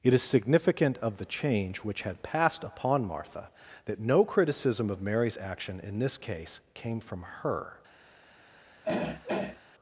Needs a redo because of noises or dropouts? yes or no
yes